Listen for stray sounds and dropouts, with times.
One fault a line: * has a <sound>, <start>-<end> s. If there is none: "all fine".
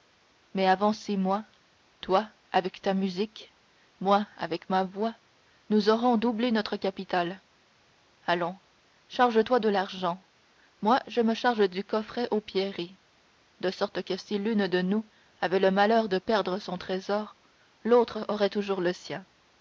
all fine